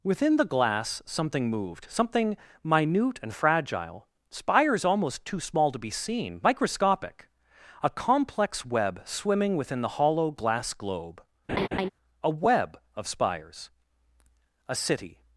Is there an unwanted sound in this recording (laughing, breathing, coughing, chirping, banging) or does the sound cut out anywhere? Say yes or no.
yes